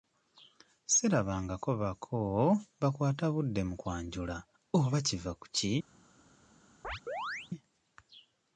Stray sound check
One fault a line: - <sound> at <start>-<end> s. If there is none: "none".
- chirp at 6.8-7.5 s